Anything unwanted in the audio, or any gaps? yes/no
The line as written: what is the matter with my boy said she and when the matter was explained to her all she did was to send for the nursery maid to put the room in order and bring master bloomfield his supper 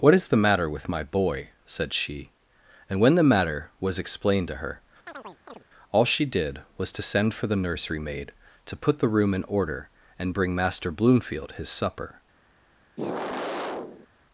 yes